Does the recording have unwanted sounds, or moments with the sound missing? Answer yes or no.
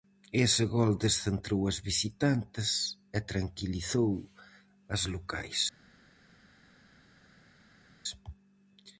no